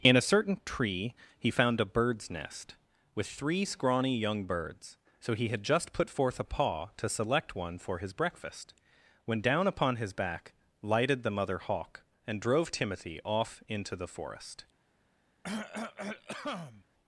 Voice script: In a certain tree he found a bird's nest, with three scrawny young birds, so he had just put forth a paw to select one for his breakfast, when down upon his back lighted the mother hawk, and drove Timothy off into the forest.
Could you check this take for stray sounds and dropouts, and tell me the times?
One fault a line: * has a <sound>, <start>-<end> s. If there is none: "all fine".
* has a cough, 15.4-16.8 s